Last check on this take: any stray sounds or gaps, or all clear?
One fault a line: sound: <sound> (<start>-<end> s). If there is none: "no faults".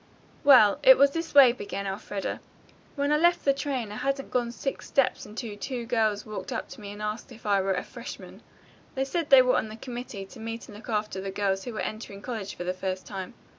no faults